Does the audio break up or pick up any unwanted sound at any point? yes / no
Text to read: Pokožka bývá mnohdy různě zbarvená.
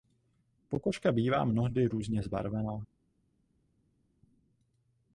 no